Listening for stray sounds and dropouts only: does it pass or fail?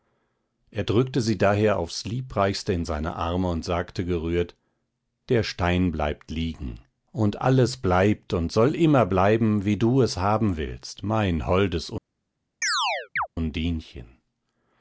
fail